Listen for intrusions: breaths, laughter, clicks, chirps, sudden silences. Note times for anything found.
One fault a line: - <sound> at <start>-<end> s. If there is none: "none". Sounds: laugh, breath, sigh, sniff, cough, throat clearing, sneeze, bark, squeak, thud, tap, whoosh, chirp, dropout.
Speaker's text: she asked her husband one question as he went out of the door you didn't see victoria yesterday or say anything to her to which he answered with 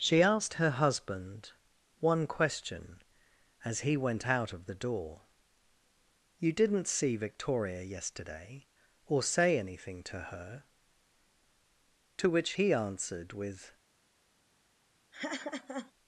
- laugh at 15.1-15.9 s